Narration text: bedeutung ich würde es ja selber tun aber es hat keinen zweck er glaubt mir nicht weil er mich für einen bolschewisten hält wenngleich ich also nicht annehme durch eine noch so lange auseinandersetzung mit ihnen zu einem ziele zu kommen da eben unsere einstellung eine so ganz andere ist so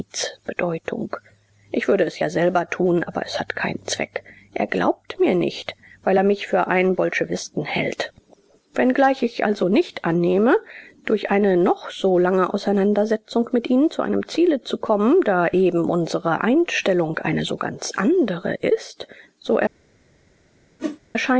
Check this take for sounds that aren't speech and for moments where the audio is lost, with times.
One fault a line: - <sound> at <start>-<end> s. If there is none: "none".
- whoosh at 20.8-21.0 s